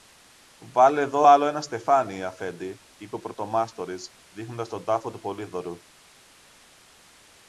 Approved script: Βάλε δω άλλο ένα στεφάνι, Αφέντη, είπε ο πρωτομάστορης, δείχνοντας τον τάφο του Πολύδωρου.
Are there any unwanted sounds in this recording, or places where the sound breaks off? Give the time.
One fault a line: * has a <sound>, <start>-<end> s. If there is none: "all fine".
all fine